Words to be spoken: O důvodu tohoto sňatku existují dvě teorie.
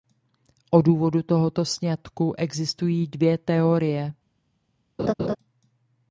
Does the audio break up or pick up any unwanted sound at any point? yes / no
yes